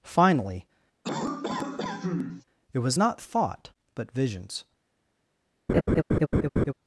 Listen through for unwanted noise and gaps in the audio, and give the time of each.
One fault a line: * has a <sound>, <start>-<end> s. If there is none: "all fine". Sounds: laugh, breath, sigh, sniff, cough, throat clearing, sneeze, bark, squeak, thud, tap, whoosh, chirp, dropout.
* has a cough, 1.0-2.4 s
* has a laugh, 5.7-6.7 s